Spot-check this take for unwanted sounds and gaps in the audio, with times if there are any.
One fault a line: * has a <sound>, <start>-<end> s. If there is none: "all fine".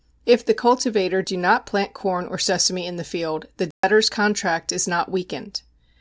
* has a dropout, 3.7-3.8 s